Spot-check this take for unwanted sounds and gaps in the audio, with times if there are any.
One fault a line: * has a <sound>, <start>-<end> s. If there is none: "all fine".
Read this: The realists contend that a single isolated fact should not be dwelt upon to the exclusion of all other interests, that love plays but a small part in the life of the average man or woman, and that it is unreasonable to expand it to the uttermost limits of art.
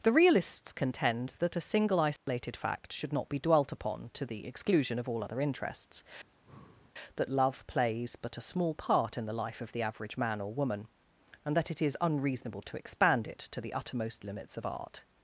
* has a dropout, 2.2-2.3 s
* has a breath, 6.2-6.9 s